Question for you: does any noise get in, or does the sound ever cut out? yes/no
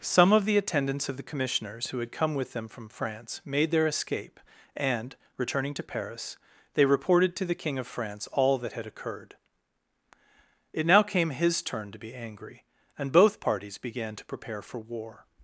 no